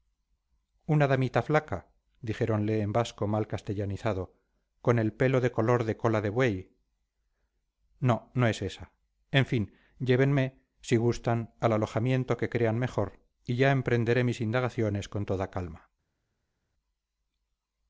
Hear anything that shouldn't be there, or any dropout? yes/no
no